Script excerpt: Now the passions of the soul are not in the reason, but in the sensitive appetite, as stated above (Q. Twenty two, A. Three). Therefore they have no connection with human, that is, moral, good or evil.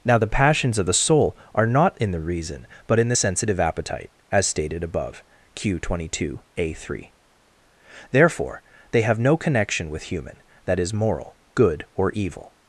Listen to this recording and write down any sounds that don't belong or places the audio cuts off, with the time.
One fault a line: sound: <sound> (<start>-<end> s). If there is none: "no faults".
no faults